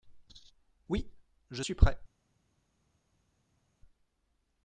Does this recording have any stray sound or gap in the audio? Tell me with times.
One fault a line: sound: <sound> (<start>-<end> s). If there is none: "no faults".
no faults